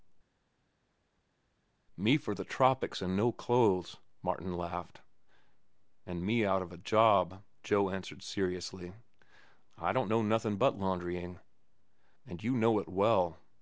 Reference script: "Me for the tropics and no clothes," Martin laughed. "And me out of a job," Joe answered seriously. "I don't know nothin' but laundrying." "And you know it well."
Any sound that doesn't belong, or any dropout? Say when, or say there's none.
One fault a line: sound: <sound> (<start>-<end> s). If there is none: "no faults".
no faults